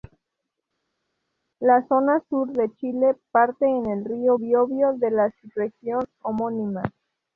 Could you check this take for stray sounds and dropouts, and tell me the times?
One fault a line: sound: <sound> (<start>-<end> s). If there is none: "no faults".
no faults